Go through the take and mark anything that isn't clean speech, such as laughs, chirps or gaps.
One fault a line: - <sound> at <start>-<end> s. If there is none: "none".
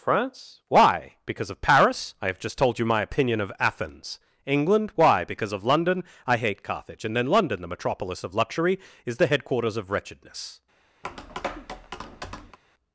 - tap at 11.0-12.6 s